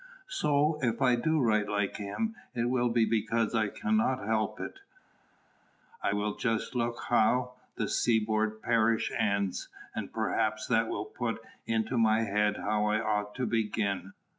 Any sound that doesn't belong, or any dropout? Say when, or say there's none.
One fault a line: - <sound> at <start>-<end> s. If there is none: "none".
none